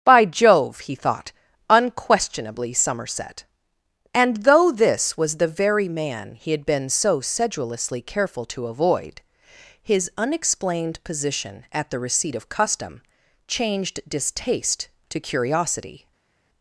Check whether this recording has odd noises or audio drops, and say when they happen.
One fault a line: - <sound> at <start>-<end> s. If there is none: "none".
none